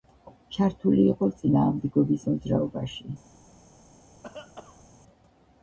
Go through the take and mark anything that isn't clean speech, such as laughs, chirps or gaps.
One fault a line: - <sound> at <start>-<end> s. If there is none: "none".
- cough at 4.2-4.8 s